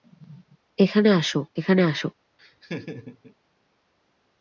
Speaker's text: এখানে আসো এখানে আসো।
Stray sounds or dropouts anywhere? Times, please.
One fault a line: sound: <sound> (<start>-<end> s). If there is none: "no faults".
sound: laugh (2.4-3.3 s)